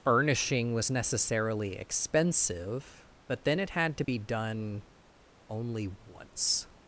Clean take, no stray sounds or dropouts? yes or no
no